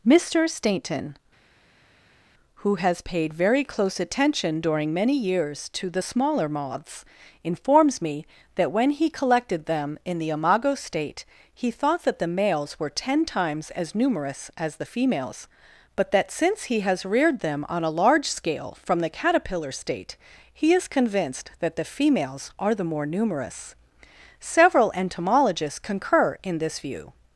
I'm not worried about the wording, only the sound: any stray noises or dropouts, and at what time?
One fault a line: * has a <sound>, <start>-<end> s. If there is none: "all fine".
all fine